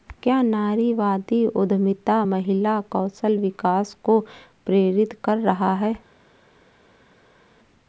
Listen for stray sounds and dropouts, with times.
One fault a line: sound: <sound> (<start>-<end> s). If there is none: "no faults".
no faults